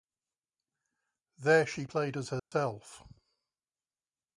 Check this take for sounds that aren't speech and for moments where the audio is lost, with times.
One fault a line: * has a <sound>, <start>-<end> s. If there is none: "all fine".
* has a dropout, 2.4-2.5 s